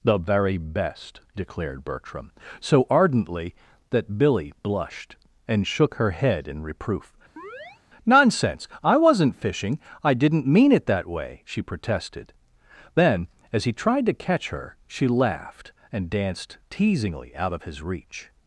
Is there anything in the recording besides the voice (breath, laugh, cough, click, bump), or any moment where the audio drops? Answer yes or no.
yes